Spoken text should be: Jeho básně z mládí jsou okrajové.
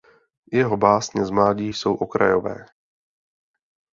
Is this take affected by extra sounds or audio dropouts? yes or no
no